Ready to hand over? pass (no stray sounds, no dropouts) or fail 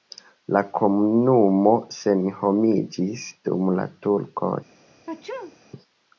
fail